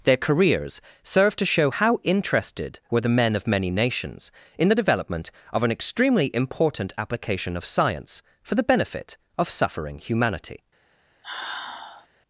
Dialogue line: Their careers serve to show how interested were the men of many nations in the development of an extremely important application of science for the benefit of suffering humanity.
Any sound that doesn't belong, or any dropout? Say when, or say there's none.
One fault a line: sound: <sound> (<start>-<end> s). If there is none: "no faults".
sound: sigh (11.2-12.1 s)